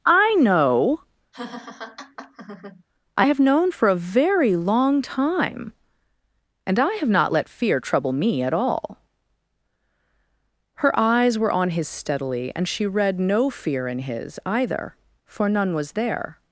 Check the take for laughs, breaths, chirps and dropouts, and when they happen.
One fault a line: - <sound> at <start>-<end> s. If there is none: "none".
- laugh at 1.3-2.8 s